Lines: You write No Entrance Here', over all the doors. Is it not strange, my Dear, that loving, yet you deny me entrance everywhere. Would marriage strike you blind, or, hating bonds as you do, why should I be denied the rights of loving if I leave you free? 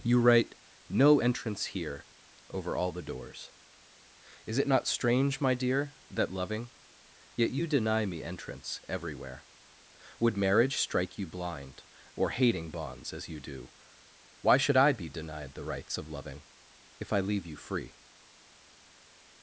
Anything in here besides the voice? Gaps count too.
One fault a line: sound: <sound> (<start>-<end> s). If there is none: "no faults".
no faults